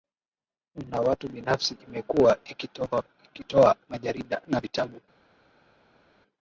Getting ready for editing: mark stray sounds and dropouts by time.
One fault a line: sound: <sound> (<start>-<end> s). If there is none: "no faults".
no faults